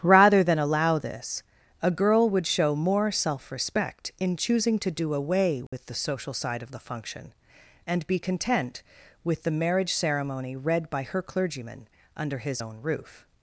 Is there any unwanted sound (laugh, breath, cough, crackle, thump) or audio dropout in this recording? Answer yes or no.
yes